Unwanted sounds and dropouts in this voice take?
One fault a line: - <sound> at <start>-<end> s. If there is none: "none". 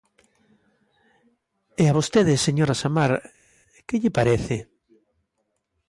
none